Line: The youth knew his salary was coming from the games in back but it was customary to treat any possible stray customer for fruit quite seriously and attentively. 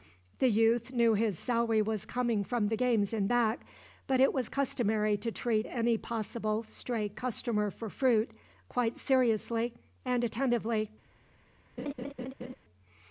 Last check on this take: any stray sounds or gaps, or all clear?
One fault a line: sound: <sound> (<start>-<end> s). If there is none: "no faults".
sound: laugh (11.8-12.6 s)